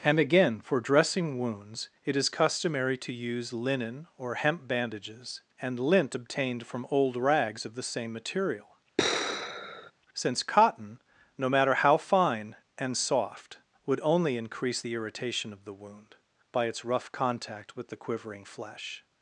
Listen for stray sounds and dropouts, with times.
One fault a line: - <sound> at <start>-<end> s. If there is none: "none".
- sigh at 9.0-9.9 s